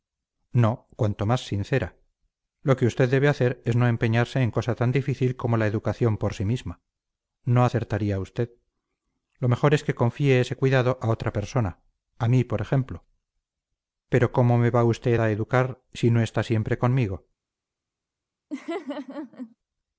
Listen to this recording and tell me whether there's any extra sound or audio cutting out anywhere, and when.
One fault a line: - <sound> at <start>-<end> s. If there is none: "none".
- laugh at 18.5-19.6 s